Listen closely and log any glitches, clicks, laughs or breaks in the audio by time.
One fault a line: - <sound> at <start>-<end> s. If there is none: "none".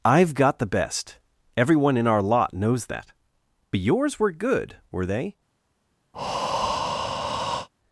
- breath at 6.1-7.7 s